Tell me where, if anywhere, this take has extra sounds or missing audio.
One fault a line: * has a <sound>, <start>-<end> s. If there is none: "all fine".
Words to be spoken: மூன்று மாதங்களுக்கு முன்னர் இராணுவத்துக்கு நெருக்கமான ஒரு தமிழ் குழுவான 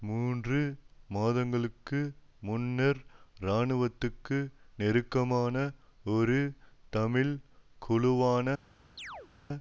* has a chirp, 9.0-9.3 s